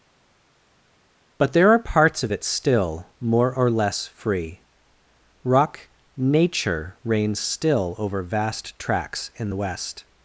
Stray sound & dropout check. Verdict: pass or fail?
pass